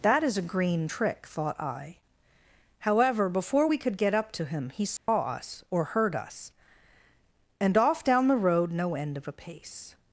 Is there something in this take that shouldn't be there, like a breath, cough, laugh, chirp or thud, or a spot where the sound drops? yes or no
yes